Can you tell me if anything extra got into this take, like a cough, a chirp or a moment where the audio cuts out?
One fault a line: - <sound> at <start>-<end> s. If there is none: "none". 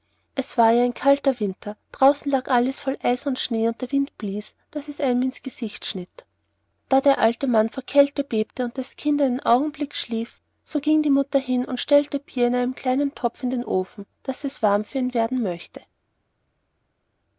none